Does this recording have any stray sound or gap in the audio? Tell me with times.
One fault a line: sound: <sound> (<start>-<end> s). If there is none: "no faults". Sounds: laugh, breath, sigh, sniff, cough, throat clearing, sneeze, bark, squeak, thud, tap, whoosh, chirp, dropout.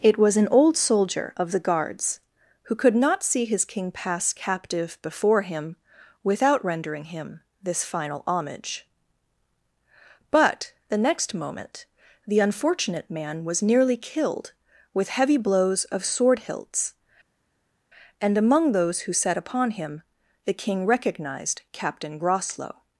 no faults